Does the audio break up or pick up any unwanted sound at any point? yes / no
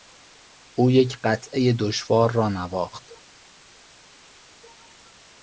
no